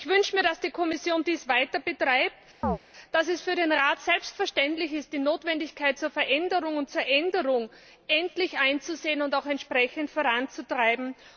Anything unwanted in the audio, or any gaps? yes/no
yes